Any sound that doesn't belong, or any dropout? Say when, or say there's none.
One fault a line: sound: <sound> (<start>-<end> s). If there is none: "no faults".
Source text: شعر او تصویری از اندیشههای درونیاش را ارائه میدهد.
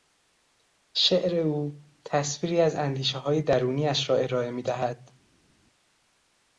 no faults